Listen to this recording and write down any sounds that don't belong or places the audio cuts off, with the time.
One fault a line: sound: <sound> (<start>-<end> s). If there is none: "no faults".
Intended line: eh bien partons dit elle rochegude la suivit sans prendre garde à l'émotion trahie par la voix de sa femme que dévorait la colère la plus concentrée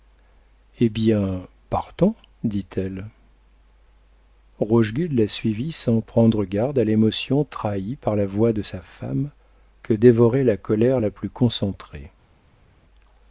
no faults